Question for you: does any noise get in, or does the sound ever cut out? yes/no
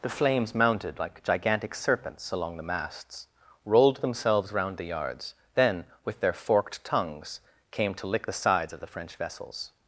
no